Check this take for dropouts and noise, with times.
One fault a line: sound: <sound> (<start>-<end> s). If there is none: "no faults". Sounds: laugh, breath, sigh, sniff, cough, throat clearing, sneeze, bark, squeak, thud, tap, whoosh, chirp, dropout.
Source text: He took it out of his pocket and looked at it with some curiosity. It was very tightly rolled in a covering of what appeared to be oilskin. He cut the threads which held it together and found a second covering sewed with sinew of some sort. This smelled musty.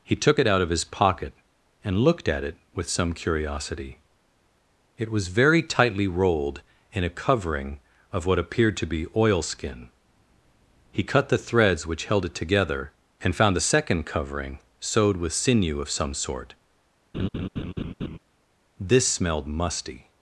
sound: laugh (17.1-18.2 s)